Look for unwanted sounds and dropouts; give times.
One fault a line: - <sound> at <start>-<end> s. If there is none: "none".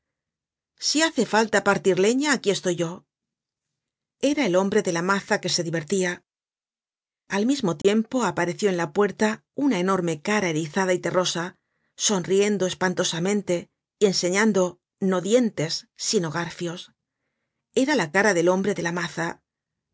- dropout at 7.8-7.8 s